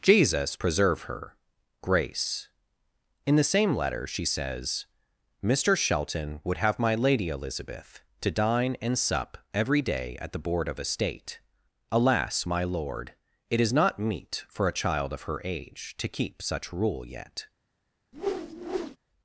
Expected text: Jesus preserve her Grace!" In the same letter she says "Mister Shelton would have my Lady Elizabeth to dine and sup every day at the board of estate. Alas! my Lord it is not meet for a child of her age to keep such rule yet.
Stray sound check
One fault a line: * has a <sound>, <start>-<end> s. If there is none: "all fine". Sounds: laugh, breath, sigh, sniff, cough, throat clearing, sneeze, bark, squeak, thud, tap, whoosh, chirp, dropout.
* has a whoosh, 18.1-19.0 s